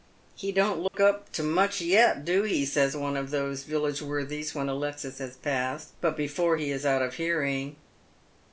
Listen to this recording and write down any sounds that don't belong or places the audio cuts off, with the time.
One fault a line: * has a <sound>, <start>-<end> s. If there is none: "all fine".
* has a dropout, 0.9-0.9 s